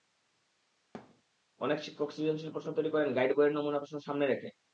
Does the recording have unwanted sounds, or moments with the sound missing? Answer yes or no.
yes